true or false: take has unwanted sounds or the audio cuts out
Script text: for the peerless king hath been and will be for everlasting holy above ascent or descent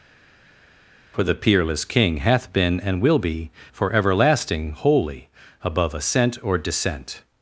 false